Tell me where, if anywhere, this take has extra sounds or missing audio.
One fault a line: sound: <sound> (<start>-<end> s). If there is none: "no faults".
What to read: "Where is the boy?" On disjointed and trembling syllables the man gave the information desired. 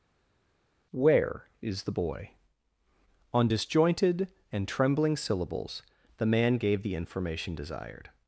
no faults